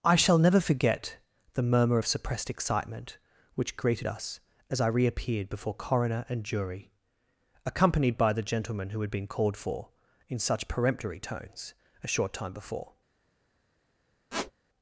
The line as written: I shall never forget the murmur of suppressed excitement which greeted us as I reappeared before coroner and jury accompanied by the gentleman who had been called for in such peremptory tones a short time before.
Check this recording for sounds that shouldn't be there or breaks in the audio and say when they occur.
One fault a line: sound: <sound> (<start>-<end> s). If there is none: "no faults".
sound: squeak (14.3-14.5 s)